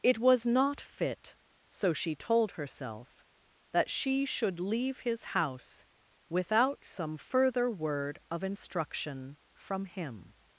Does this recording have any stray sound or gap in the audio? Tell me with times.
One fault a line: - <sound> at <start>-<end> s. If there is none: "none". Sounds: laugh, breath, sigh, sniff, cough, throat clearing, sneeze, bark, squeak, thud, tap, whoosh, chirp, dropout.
none